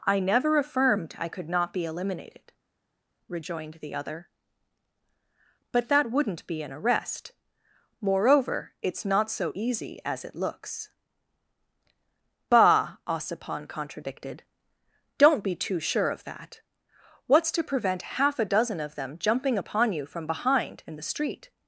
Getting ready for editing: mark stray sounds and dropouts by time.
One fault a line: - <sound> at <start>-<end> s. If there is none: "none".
none